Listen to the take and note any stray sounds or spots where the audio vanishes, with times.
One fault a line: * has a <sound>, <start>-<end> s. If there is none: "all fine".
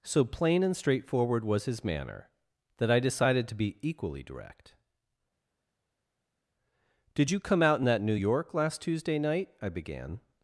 all fine